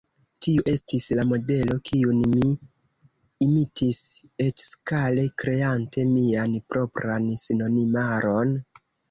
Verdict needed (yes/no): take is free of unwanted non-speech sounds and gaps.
yes